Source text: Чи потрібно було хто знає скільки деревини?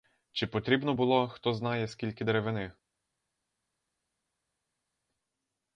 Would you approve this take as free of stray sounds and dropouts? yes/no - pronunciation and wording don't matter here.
yes